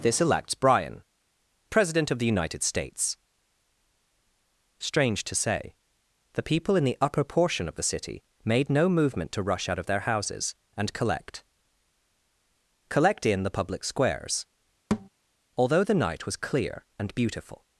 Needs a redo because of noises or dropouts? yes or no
yes